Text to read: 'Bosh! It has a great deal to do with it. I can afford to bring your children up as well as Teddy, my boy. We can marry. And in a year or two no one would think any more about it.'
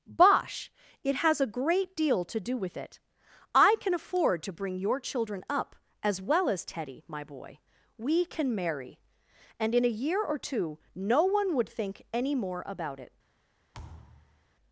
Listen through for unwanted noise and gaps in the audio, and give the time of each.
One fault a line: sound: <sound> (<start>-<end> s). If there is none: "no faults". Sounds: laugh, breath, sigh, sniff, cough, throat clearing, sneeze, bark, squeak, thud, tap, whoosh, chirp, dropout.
sound: thud (13.7-14.4 s)